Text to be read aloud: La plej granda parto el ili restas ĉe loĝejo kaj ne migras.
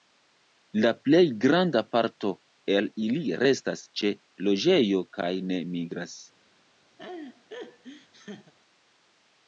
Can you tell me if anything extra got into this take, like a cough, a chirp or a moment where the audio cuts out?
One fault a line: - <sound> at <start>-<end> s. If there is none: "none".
- laugh at 7.0-8.5 s